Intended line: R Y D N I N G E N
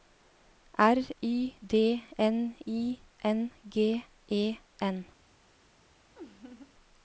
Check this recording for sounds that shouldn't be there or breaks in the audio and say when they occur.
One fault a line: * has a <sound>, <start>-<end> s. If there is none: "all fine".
* has a laugh, 6.2-6.7 s